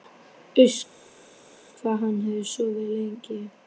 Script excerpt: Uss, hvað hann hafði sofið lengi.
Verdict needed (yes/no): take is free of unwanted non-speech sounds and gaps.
yes